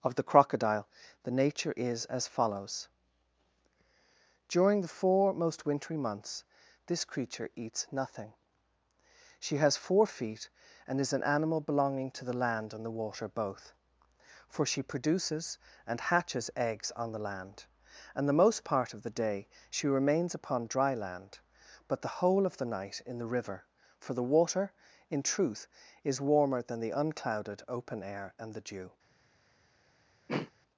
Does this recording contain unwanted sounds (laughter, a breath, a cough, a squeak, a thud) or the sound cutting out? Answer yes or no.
yes